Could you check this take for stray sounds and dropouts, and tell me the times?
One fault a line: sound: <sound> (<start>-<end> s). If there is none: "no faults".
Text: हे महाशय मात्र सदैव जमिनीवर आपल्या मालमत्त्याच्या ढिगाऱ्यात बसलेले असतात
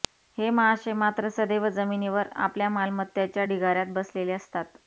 no faults